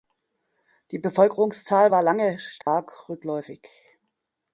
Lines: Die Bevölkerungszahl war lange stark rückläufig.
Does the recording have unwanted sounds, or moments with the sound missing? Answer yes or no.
yes